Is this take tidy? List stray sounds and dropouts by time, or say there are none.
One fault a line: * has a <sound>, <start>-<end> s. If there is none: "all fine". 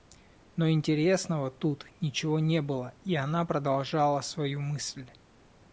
all fine